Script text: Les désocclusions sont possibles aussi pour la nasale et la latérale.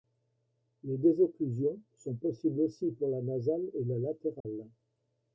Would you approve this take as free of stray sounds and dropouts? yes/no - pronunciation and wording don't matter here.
no